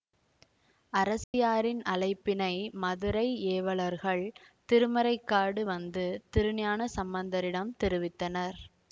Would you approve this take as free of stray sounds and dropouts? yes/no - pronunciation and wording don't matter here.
no